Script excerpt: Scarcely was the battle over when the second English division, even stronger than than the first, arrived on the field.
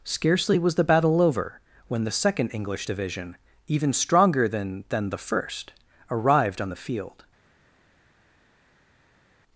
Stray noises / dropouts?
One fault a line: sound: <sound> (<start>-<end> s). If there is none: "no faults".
no faults